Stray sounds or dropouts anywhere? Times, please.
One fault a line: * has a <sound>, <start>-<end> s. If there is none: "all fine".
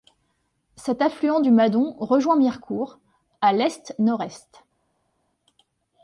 all fine